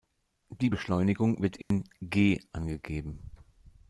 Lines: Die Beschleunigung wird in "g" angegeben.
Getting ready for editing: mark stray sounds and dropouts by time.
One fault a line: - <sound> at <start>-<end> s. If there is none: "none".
- dropout at 1.6-1.7 s